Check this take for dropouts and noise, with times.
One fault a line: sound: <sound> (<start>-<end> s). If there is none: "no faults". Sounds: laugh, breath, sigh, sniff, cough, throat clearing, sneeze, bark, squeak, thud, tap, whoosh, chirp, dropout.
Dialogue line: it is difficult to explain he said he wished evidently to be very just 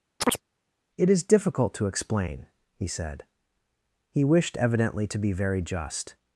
sound: chirp (0.2-0.4 s)